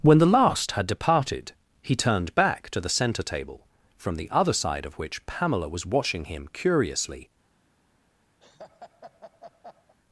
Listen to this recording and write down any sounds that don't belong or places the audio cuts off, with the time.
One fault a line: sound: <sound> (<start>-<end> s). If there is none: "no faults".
sound: laugh (8.4-9.9 s)